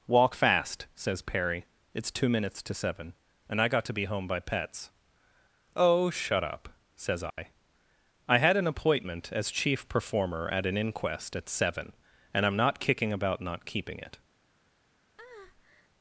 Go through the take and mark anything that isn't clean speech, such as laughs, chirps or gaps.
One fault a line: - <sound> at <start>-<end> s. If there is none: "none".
- dropout at 7.3-7.4 s
- breath at 15.2-15.9 s